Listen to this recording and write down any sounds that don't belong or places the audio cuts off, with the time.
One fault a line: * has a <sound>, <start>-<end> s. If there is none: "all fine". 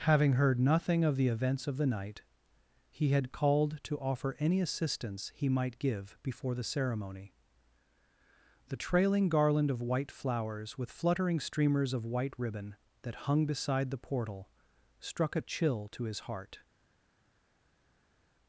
all fine